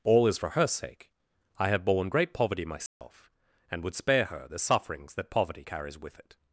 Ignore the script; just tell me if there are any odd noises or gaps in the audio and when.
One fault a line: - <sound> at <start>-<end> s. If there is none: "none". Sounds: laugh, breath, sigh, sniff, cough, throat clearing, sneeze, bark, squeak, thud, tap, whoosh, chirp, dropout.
- dropout at 2.9-3.0 s